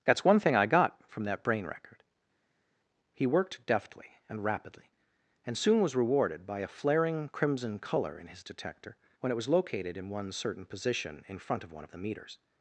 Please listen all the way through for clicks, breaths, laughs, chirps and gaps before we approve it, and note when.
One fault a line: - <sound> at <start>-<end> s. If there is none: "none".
none